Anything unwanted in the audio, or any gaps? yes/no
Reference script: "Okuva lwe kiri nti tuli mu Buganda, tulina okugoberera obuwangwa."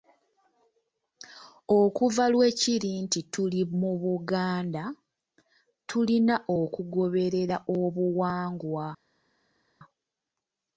no